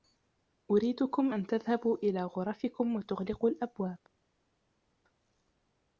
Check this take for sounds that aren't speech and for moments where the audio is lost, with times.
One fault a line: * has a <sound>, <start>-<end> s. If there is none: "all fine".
all fine